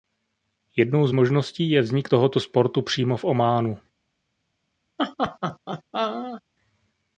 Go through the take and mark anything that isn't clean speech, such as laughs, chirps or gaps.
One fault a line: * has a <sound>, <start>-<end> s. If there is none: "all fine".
* has a laugh, 5.0-6.4 s